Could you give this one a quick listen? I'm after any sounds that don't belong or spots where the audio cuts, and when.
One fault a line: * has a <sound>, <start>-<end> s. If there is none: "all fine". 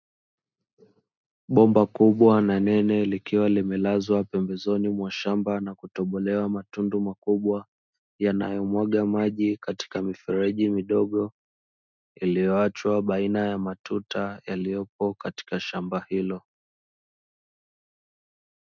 all fine